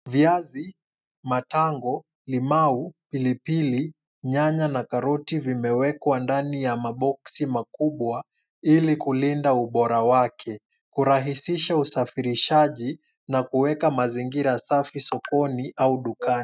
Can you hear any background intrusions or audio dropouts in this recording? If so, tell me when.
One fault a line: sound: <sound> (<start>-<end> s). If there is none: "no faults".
no faults